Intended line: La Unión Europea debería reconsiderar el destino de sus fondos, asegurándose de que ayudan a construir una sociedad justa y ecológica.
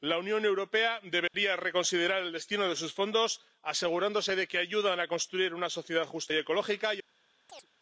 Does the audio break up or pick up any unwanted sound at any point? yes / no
yes